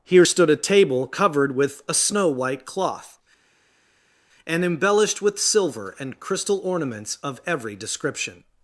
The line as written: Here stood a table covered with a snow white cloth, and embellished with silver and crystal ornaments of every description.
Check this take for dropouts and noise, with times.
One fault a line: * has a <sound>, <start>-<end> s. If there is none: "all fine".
all fine